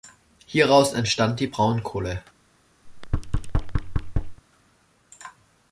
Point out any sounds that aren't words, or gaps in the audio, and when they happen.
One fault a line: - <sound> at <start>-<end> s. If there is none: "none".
- thud at 2.9-4.4 s